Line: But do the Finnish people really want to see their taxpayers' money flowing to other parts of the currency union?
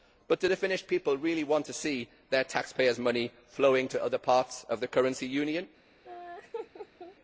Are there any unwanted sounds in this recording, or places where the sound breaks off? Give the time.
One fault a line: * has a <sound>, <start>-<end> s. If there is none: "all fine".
* has a laugh, 6.0-7.2 s